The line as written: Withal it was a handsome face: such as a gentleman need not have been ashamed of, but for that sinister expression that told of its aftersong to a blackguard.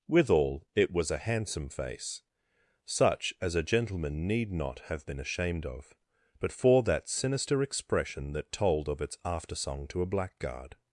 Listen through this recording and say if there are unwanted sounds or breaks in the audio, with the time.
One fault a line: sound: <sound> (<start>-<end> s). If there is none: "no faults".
no faults